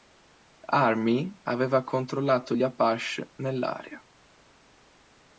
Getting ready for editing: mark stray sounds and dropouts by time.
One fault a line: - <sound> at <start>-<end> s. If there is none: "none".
none